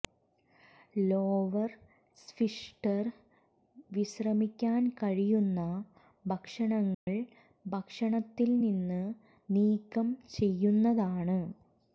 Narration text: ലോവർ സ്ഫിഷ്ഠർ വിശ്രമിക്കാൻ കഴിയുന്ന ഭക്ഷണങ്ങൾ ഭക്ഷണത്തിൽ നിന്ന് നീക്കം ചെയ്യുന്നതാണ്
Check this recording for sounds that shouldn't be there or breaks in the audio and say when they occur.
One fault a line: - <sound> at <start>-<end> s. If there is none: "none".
- dropout at 6.9-7.1 s